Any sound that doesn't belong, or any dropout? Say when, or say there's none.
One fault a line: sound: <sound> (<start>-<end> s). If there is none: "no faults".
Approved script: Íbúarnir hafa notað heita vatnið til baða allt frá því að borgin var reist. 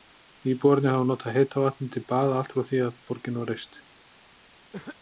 sound: cough (4.7-5.0 s)